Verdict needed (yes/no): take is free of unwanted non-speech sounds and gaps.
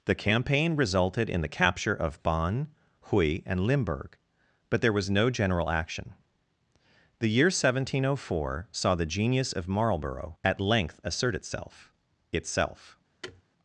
no